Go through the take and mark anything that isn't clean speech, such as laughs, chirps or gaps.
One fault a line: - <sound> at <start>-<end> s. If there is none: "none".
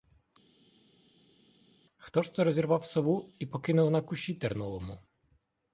none